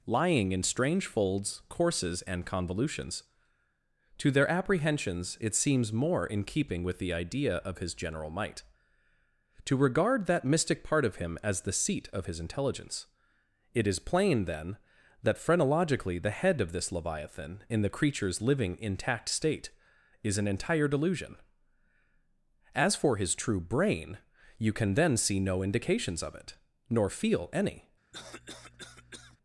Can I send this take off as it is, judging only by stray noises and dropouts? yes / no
no